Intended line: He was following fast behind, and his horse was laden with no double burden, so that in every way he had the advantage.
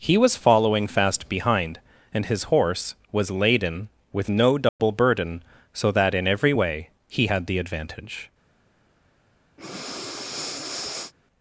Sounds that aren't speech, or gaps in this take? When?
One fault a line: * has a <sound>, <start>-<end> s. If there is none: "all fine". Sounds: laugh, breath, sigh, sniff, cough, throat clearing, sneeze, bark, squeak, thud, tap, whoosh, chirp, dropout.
* has a dropout, 4.7-4.8 s
* has a breath, 9.6-11.1 s